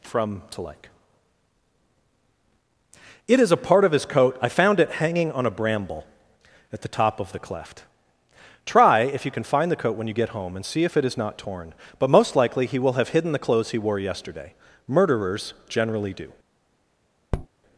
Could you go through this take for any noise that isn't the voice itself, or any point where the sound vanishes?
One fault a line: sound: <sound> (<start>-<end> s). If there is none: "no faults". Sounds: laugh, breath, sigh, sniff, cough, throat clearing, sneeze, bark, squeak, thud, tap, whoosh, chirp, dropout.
sound: tap (17.3-17.5 s)